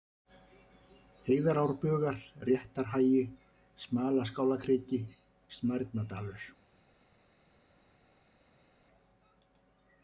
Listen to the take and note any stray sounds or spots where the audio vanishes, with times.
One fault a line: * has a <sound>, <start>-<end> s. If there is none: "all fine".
all fine